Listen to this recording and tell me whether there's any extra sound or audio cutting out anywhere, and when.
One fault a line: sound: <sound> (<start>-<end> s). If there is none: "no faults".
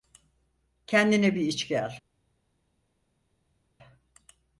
no faults